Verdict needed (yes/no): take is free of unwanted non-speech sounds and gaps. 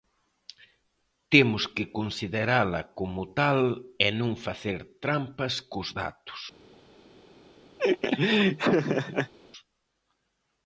no